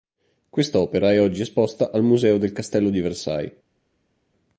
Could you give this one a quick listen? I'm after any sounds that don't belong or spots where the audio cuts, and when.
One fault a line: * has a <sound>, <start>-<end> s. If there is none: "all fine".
all fine